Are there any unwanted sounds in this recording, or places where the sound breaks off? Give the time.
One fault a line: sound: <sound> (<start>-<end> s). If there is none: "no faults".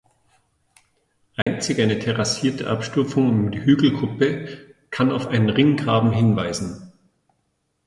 sound: dropout (1.4-1.5 s)